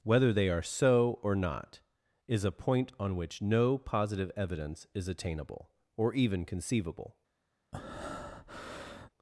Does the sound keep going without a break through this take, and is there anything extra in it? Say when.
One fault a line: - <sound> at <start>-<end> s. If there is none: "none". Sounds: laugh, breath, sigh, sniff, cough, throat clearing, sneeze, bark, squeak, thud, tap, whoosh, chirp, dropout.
- breath at 7.7-9.1 s